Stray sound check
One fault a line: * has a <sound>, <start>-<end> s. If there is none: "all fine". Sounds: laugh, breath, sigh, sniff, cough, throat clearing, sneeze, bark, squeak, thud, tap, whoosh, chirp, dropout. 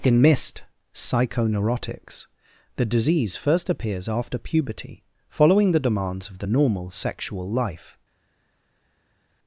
all fine